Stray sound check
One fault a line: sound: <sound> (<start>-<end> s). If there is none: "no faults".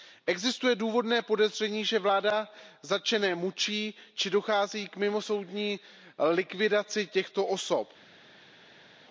no faults